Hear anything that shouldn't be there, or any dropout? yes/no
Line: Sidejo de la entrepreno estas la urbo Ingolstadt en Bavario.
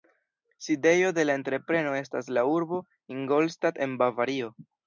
no